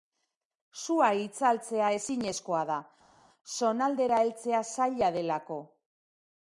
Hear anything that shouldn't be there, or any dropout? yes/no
no